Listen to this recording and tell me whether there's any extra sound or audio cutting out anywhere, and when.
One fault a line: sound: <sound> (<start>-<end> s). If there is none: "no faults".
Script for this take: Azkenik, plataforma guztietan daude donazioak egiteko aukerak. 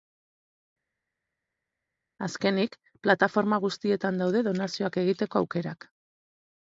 no faults